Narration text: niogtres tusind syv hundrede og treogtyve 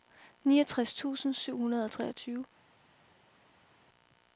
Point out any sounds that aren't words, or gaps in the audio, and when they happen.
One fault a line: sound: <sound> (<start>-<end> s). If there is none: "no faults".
no faults